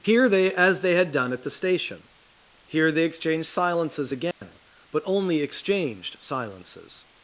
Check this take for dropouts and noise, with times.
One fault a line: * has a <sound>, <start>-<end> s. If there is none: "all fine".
* has a dropout, 4.3-4.4 s